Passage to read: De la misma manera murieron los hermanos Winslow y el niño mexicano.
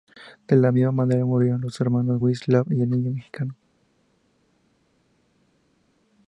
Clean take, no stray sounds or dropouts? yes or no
yes